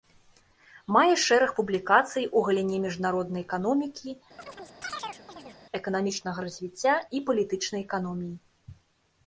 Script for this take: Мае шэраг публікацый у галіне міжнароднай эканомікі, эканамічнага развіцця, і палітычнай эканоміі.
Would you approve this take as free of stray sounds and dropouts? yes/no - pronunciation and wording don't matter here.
no